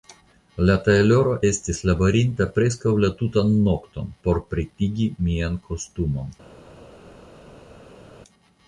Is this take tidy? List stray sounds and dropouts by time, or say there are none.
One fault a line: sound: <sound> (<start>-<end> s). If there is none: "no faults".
no faults